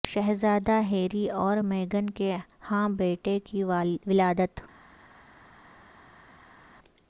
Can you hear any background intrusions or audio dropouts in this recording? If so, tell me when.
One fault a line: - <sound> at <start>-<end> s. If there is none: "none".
none